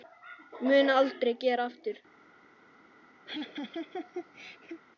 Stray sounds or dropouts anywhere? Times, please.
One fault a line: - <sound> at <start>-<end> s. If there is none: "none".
- laugh at 3.3-4.8 s